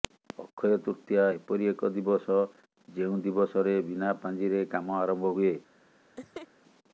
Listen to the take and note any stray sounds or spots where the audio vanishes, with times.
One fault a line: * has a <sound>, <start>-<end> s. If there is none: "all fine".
* has a laugh, 6.2-6.5 s